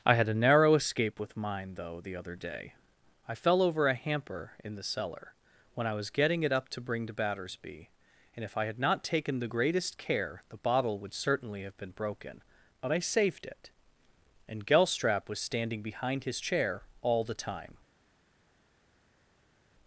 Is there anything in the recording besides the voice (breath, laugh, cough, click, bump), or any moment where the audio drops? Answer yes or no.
no